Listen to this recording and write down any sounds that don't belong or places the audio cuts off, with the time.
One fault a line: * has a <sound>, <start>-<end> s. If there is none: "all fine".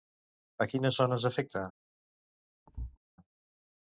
* has a thud, 2.7-3.0 s